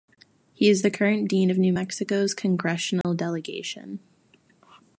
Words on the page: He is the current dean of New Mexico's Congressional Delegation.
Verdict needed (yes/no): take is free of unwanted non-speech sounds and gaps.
no